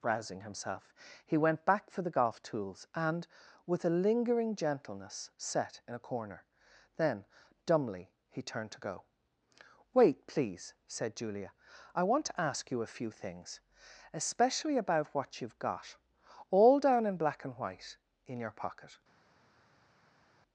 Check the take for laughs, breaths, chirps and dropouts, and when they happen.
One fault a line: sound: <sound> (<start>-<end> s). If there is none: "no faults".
no faults